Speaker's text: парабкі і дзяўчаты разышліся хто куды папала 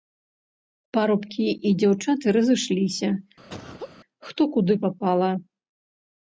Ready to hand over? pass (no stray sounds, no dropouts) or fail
fail